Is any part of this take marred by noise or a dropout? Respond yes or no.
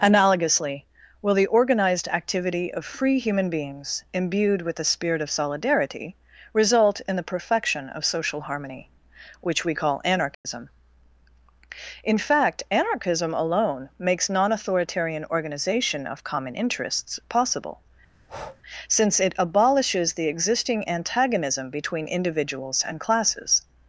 yes